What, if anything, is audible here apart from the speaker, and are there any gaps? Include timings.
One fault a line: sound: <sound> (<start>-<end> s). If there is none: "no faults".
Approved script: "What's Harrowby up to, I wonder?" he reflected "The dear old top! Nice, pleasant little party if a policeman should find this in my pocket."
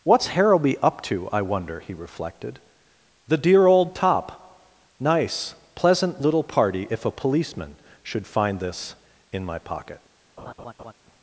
sound: laugh (10.4-10.9 s)